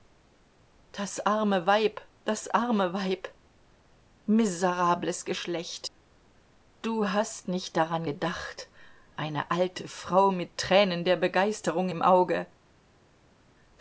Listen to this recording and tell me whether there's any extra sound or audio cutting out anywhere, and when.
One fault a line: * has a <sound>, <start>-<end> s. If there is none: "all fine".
all fine